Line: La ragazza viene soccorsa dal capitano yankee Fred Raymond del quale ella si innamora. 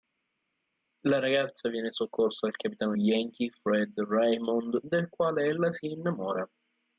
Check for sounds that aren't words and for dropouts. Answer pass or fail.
pass